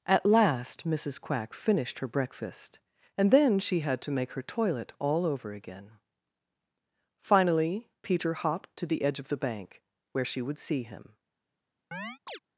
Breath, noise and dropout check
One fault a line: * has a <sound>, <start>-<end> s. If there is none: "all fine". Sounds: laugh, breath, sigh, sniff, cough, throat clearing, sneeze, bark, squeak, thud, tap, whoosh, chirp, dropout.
* has a chirp, 11.9-12.4 s